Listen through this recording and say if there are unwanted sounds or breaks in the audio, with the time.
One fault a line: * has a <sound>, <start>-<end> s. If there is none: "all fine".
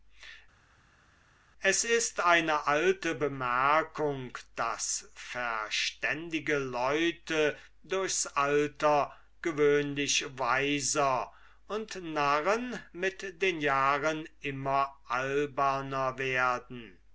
all fine